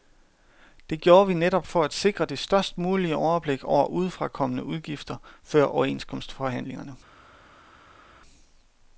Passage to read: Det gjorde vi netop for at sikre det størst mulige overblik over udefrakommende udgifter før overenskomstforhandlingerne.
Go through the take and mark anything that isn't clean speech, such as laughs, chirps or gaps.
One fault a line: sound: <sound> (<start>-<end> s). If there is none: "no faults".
no faults